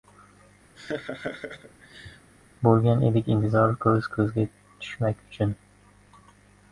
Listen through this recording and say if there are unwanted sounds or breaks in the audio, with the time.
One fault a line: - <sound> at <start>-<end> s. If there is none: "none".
- laugh at 0.7-2.3 s